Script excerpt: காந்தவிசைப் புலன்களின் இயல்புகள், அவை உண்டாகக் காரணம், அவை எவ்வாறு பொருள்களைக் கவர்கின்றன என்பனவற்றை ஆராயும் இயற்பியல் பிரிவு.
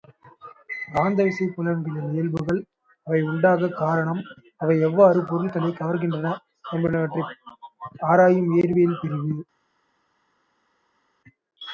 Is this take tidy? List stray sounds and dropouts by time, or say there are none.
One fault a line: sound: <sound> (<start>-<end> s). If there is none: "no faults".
no faults